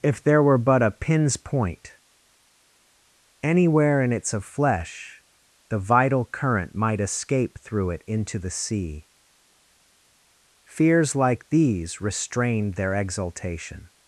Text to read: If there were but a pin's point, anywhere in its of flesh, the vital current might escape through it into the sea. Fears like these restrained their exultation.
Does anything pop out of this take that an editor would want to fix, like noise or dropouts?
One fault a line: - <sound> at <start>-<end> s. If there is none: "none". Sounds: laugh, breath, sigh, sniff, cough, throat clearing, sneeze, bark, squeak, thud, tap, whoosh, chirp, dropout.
none